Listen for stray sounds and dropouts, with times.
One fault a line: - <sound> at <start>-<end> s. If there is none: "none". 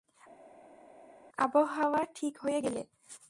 none